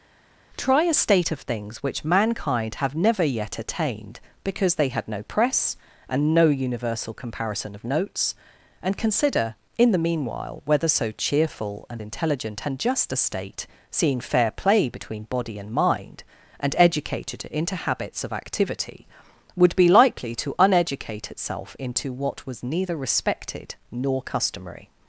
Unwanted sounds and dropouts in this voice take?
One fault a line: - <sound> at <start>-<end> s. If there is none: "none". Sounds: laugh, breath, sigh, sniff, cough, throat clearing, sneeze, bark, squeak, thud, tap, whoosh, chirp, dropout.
none